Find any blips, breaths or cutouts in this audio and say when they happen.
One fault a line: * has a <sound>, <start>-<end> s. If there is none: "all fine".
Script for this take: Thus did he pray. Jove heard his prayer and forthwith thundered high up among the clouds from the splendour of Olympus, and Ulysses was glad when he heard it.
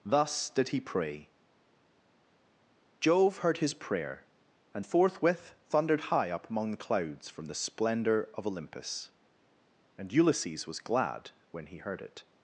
all fine